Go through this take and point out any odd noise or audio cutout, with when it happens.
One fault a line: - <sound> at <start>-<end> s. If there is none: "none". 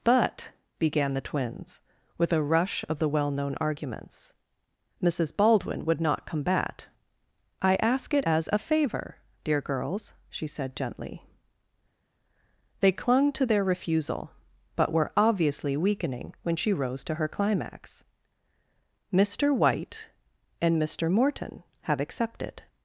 none